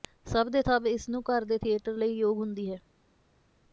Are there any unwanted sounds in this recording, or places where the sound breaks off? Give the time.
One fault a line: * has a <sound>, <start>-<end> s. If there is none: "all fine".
all fine